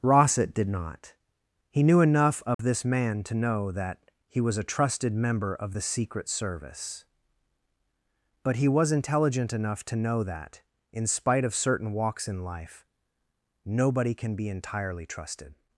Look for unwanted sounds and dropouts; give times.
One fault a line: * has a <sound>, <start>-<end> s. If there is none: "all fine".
* has a dropout, 2.5-2.6 s